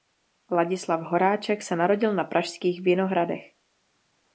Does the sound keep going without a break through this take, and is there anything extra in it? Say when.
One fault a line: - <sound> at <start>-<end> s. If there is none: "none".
none